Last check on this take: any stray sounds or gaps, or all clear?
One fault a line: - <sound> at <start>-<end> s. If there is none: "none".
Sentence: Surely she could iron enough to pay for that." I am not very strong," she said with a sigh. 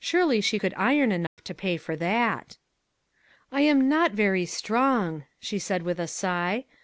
- dropout at 1.3-1.4 s